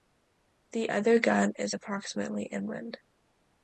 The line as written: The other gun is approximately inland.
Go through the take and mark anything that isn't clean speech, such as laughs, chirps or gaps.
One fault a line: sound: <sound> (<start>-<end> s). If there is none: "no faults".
no faults